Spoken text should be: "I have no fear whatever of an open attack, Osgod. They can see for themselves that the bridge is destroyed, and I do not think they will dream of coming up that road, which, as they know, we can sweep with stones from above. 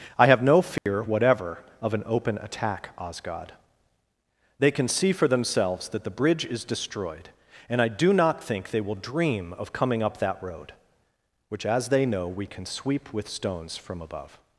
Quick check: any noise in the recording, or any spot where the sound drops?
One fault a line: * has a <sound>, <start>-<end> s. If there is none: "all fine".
* has a dropout, 0.8-0.9 s